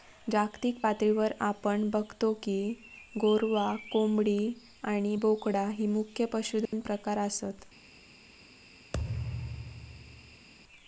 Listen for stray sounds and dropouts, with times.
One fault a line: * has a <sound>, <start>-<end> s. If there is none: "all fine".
* has a dropout, 6.7-6.7 s
* has a thud, 8.9-10.5 s